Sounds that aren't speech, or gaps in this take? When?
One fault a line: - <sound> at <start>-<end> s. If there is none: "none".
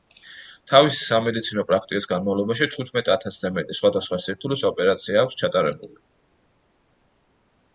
none